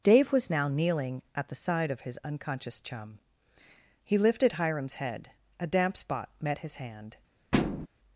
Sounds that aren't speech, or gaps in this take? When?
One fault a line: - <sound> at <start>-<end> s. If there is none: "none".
- thud at 7.5-7.9 s